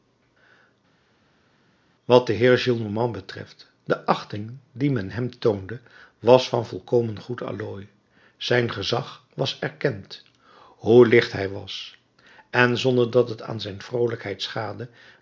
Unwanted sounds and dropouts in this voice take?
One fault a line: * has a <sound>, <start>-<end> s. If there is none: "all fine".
all fine